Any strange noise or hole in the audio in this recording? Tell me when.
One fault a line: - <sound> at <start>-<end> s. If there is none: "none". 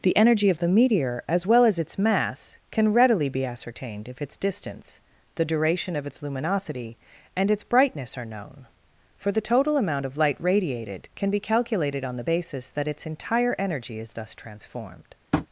- tap at 15.3-15.5 s